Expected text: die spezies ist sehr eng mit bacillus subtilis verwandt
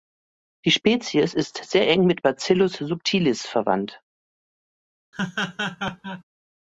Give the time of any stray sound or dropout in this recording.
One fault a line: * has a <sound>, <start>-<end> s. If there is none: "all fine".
* has a laugh, 5.1-6.2 s